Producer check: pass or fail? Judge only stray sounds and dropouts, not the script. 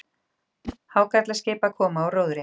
fail